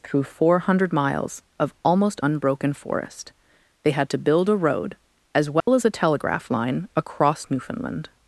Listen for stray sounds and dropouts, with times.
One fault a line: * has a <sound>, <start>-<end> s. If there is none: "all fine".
* has a dropout, 5.6-5.7 s